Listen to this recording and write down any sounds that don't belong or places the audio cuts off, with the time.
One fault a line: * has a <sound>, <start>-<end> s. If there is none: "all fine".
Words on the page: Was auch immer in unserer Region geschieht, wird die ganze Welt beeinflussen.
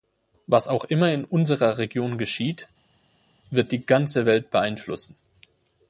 all fine